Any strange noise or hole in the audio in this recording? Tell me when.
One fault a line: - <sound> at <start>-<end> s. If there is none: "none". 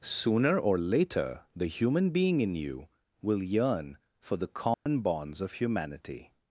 - dropout at 4.7-4.9 s